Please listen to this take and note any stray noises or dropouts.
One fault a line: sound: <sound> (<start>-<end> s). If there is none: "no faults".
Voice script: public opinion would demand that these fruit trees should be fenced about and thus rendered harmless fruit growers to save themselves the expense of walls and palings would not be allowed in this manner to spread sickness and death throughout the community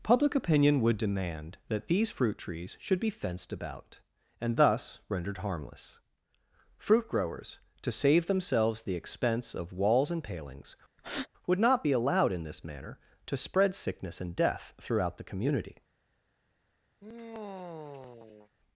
sound: breath (11.0-11.3 s)
sound: sigh (17.0-18.5 s)